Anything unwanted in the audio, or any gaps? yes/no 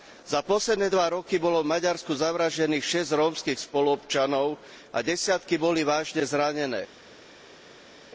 no